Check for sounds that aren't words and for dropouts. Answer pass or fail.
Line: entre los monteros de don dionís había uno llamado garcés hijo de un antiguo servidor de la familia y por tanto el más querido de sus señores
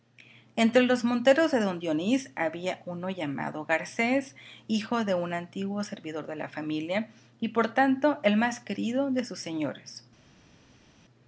pass